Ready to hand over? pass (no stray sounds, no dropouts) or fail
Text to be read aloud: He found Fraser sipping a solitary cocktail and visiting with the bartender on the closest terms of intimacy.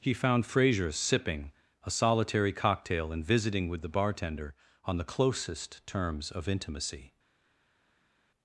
pass